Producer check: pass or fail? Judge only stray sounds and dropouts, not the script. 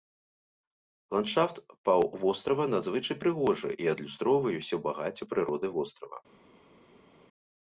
pass